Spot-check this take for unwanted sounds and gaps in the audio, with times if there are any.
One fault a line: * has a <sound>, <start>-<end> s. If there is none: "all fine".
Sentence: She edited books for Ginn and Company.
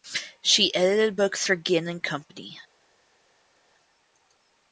all fine